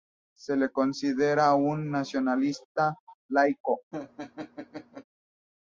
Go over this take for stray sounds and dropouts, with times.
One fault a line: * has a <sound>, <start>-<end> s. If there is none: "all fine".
* has a laugh, 3.9-5.0 s